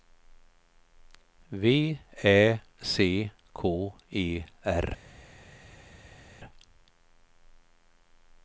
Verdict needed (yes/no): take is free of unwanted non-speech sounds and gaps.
yes